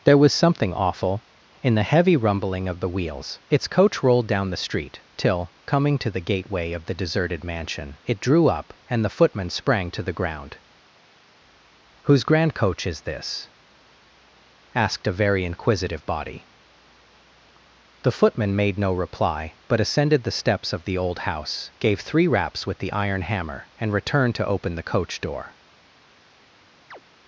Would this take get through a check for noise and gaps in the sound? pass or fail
fail